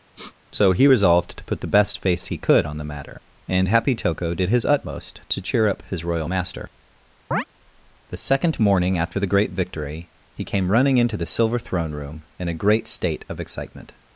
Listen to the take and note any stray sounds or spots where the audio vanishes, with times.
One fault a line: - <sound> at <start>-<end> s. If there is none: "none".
- sniff at 0.2-0.4 s
- chirp at 7.3-7.4 s